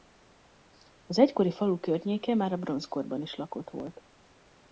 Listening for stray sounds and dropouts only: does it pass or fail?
pass